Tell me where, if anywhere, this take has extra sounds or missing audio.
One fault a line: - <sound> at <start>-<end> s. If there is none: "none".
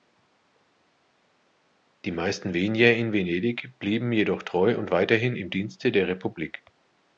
none